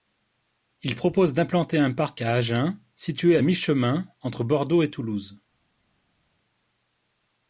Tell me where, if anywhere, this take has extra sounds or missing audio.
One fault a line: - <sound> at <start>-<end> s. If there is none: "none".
none